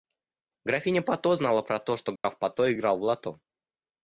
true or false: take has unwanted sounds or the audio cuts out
true